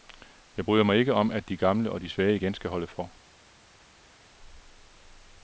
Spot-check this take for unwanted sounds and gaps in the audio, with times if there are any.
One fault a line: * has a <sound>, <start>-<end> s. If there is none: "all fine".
all fine